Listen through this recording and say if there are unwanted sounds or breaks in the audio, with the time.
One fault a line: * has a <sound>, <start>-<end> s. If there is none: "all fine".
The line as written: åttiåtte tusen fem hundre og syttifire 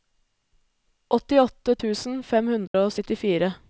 * has a dropout, 2.7-2.7 s